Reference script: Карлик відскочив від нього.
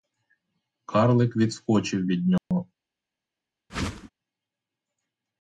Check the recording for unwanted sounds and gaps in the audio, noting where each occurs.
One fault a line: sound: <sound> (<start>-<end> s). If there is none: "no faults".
sound: dropout (2.4-2.5 s)
sound: whoosh (3.7-4.1 s)